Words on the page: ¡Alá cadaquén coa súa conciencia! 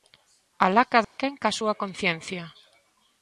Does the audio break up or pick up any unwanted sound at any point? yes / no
yes